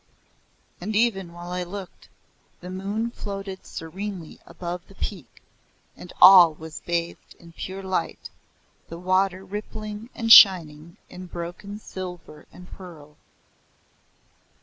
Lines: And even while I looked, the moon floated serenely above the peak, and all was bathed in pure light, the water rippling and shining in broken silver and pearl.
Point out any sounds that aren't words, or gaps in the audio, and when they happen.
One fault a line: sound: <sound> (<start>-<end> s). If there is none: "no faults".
no faults